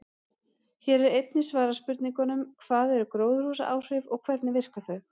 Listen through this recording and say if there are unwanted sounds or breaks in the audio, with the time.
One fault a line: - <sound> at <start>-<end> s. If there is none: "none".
none